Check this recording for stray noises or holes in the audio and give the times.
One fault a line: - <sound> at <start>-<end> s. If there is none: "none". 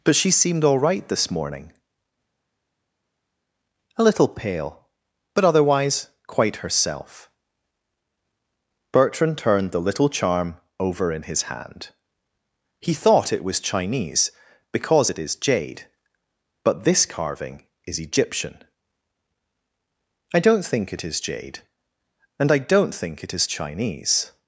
none